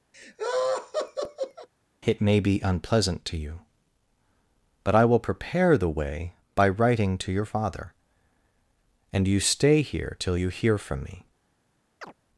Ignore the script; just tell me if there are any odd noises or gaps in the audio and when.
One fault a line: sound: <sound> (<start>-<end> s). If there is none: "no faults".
sound: laugh (0.1-1.7 s)
sound: chirp (12.0-12.1 s)